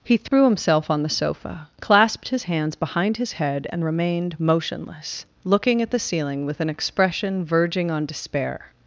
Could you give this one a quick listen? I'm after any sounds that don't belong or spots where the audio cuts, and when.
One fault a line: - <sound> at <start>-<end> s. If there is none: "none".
- dropout at 0.3-0.3 s